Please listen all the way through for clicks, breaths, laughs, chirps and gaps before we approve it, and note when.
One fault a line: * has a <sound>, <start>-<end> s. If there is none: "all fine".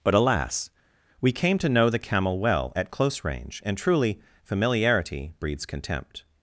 all fine